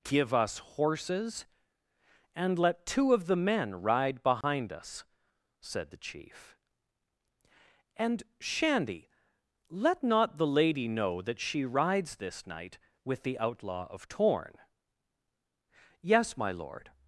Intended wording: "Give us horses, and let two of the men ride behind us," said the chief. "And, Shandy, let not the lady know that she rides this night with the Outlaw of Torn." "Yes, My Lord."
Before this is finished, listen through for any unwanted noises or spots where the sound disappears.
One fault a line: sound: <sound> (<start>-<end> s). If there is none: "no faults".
sound: dropout (4.4-4.4 s)